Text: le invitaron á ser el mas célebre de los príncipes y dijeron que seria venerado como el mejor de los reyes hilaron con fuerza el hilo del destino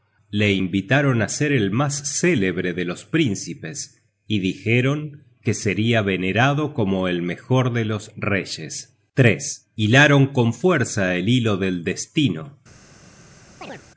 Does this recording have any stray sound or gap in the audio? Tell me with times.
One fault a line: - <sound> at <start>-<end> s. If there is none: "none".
- chirp at 13.6-13.8 s